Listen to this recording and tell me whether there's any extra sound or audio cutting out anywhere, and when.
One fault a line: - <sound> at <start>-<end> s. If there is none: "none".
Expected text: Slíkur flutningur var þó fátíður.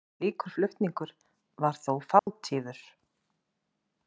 - dropout at 2.2-2.3 s